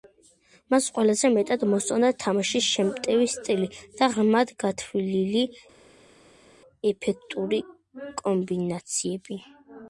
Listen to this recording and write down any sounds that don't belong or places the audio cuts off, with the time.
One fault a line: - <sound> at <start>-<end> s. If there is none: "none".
none